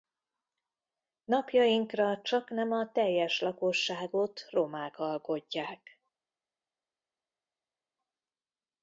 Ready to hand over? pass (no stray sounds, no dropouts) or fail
pass